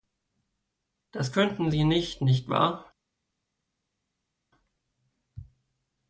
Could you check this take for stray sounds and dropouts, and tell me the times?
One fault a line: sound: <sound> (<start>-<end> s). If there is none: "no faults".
no faults